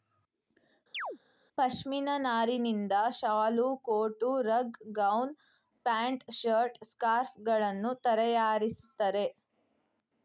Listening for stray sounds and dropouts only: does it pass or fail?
fail